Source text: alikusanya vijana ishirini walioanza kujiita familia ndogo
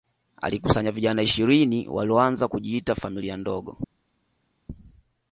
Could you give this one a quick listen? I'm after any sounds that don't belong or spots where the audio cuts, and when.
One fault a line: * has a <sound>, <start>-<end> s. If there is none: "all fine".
all fine